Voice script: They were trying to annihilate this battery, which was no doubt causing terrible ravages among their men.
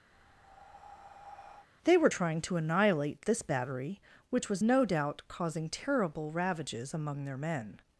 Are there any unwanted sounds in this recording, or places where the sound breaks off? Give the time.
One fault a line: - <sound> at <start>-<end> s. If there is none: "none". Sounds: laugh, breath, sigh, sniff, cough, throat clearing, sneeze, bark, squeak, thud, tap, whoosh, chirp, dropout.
- breath at 0.1-1.7 s